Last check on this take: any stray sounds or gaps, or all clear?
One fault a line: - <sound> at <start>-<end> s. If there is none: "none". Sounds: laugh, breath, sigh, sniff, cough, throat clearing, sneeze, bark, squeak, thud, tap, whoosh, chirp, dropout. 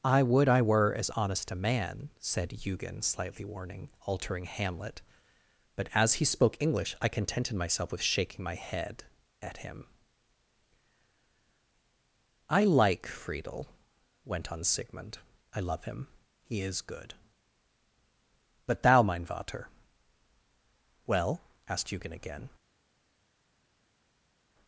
none